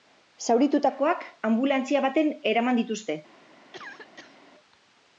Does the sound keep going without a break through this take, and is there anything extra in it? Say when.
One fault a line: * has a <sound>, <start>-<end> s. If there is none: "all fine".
* has a cough, 3.7-4.4 s